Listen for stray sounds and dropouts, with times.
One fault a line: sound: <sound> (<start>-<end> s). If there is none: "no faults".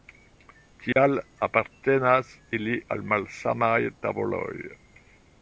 sound: dropout (0.9-1.0 s)